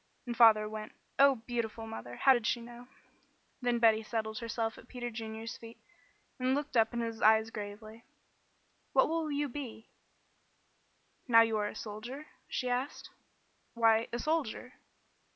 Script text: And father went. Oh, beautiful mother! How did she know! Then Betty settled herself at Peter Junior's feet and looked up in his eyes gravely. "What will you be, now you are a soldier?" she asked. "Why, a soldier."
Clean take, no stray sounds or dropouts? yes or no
yes